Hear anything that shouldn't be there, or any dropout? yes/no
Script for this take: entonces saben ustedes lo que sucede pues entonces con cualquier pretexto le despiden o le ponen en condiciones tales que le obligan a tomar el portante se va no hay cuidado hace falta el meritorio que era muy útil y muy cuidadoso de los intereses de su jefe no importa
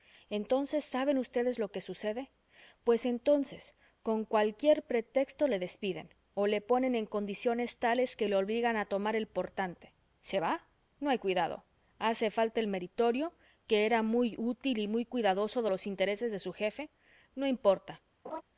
yes